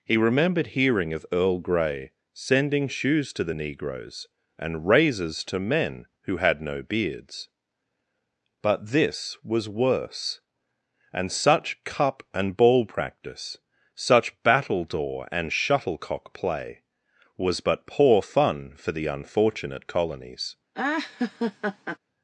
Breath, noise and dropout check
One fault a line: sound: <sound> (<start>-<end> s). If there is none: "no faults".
sound: laugh (20.7-22.0 s)